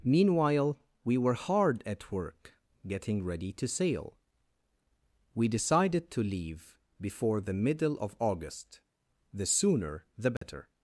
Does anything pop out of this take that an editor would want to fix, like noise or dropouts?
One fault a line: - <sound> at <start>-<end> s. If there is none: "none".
- dropout at 10.4-10.4 s